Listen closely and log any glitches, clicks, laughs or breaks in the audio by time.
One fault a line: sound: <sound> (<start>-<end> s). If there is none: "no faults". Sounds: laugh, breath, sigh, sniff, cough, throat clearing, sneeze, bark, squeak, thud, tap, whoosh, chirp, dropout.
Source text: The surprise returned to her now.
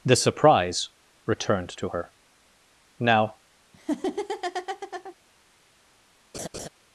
sound: laugh (3.7-5.2 s)
sound: laugh (6.3-6.7 s)